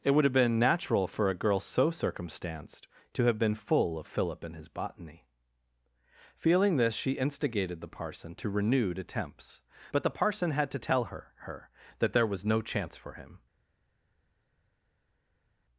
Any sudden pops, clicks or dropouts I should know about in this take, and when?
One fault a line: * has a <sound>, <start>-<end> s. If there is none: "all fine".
all fine